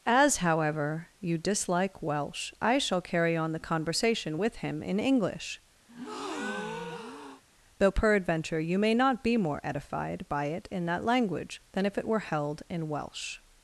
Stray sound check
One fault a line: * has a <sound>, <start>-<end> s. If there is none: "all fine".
* has a breath, 5.9-7.4 s